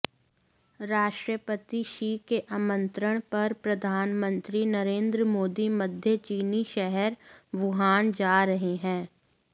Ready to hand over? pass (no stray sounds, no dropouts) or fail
pass